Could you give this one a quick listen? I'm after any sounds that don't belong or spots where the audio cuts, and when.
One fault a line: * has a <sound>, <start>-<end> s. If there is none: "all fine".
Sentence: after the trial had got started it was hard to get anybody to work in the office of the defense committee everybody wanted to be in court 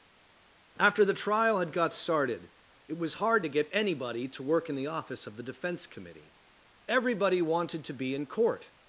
all fine